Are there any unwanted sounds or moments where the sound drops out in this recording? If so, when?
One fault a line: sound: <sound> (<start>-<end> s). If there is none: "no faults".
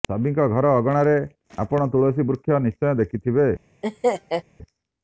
sound: laugh (3.8-4.4 s)